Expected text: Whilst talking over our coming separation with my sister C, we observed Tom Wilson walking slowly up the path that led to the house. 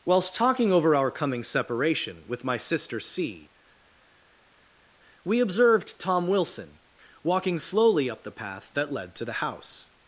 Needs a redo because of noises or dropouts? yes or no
no